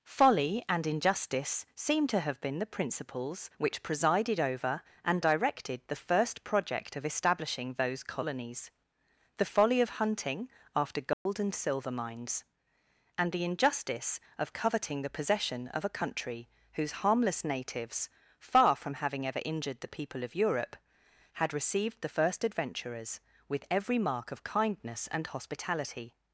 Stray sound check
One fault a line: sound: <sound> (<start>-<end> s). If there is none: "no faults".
sound: dropout (11.1-11.3 s)